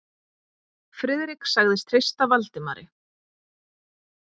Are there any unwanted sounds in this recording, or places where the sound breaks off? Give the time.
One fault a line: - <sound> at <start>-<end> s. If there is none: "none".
none